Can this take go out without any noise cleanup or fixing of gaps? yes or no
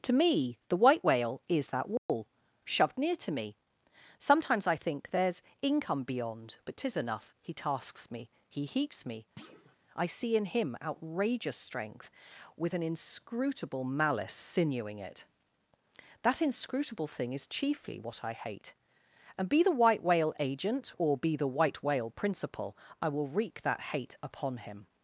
no